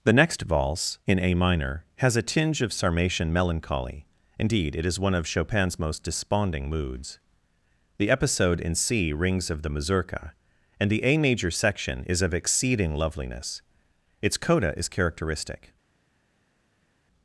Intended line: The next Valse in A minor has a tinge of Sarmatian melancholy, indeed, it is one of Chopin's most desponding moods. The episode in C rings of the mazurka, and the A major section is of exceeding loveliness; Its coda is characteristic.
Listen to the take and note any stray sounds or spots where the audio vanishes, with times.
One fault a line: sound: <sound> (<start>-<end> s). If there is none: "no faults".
no faults